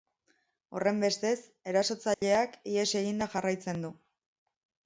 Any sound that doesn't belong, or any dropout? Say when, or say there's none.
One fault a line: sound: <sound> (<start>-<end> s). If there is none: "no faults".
sound: dropout (2.1-2.2 s)